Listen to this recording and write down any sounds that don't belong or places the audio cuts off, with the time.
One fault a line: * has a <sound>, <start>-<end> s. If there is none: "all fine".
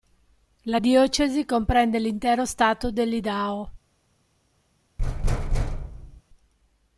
* has a thud, 5.0-6.2 s